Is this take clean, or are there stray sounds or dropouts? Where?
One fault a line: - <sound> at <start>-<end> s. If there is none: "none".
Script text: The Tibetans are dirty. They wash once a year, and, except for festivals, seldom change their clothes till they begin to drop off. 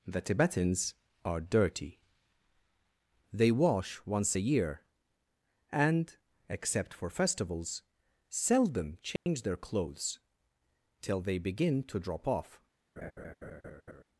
- dropout at 9.2-9.3 s
- laugh at 13.0-14.0 s